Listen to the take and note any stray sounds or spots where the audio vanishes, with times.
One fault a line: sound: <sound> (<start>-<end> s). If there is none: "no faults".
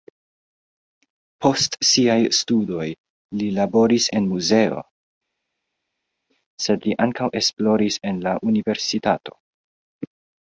no faults